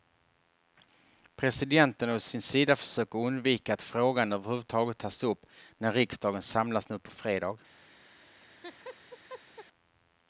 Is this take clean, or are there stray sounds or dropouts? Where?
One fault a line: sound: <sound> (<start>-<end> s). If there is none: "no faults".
sound: laugh (8.3-9.7 s)